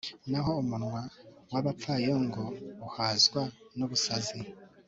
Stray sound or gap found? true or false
false